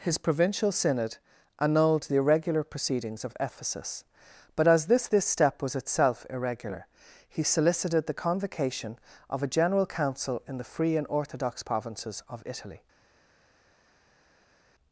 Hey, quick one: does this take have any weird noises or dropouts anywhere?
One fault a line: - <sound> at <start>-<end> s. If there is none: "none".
none